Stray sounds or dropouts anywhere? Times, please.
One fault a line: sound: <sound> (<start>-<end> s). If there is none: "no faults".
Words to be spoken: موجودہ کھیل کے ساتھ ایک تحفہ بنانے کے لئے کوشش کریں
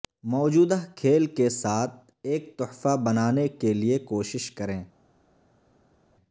no faults